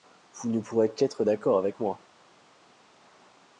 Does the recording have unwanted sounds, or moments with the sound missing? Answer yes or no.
no